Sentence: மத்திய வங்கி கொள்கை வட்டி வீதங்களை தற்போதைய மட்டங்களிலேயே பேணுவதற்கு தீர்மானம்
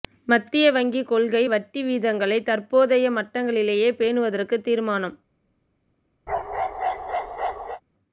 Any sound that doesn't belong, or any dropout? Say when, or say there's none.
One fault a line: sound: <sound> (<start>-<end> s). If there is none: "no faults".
sound: bark (6.3-7.8 s)